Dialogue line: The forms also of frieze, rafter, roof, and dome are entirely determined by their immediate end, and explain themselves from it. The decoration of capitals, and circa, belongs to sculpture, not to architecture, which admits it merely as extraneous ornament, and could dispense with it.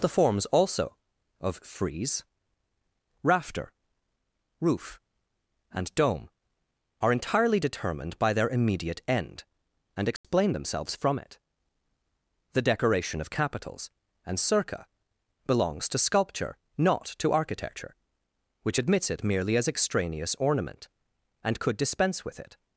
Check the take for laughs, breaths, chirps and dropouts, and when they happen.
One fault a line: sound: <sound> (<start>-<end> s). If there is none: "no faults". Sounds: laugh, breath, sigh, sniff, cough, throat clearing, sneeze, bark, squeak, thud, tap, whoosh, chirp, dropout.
sound: dropout (10.2-10.2 s)